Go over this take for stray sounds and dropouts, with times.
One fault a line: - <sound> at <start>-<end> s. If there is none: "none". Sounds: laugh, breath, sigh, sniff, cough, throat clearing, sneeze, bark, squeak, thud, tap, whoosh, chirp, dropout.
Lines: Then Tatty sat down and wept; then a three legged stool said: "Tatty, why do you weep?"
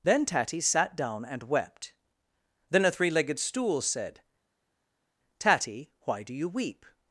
none